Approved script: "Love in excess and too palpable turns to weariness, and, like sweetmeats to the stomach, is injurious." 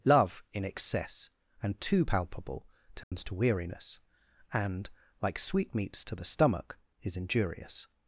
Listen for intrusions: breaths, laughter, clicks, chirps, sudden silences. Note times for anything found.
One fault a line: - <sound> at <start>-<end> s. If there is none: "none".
- dropout at 3.0-3.1 s